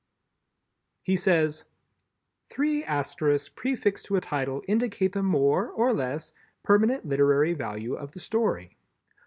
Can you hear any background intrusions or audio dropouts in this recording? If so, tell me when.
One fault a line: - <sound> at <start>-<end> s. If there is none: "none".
none